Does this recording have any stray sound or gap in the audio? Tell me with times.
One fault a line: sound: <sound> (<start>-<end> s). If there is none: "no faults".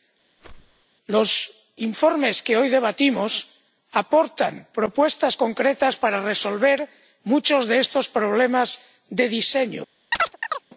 sound: whoosh (0.4-0.9 s)
sound: chirp (10.1-10.6 s)